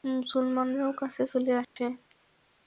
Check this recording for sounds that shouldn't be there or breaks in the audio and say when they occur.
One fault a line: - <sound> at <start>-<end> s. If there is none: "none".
- dropout at 1.6-1.8 s